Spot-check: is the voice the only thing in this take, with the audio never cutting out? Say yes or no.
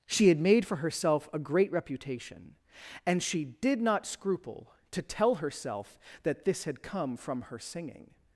yes